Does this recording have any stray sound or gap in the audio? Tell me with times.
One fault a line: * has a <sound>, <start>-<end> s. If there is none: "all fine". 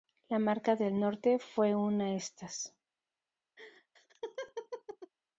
* has a laugh, 3.6-5.1 s